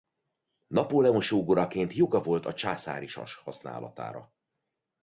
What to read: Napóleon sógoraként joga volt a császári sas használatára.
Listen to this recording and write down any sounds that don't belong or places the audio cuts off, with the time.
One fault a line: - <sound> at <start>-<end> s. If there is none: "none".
none